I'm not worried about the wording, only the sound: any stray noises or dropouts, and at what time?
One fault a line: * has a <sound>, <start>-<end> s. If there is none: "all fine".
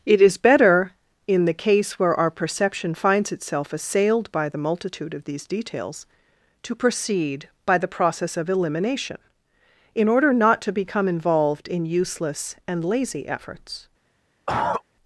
* has a cough, 14.5-14.8 s